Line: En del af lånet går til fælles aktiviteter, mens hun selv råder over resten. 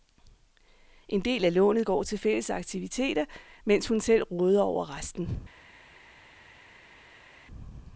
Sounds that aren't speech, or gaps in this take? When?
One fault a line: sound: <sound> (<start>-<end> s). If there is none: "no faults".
no faults